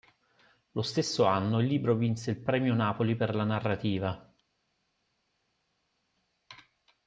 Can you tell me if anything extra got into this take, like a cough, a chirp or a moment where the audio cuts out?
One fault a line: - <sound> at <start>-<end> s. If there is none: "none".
none